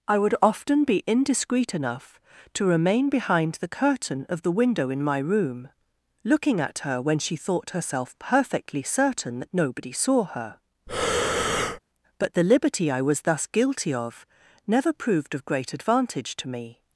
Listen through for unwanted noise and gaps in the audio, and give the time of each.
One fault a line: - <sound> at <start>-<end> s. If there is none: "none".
- breath at 10.9-11.8 s